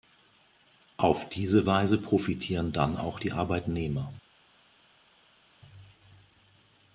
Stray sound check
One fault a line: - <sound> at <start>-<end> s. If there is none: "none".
none